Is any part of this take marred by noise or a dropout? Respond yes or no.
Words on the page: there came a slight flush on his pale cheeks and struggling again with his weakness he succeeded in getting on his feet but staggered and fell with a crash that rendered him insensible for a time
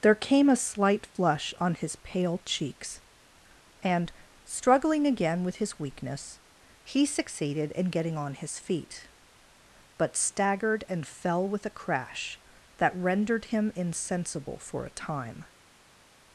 no